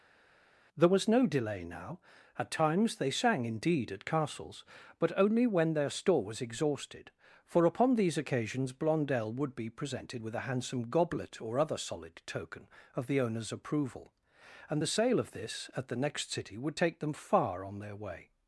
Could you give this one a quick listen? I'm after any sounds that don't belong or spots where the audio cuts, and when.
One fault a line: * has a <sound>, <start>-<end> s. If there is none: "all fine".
all fine